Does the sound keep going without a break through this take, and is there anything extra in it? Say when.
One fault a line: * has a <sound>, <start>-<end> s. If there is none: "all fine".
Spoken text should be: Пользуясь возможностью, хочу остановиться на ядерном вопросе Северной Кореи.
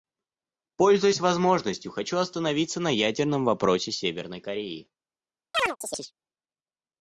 * has a chirp, 5.5-6.1 s